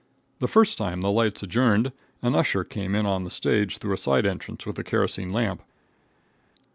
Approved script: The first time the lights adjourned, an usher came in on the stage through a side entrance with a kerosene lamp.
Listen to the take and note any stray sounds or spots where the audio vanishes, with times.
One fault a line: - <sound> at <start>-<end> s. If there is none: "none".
none